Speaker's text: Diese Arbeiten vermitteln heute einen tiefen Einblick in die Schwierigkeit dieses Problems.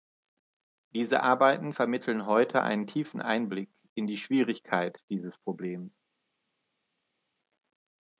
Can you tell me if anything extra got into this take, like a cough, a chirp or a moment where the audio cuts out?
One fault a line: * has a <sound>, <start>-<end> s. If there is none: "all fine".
all fine